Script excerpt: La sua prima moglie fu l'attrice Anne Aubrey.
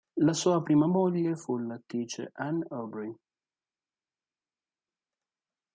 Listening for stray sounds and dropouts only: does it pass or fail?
pass